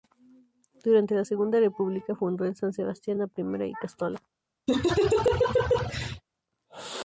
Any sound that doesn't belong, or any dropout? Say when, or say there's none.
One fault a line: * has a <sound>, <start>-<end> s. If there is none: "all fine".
* has a laugh, 4.7-6.2 s